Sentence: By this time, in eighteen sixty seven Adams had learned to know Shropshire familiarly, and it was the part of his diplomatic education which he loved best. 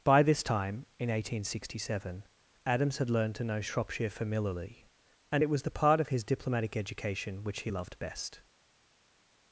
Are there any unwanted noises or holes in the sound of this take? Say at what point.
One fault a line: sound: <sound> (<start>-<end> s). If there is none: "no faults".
no faults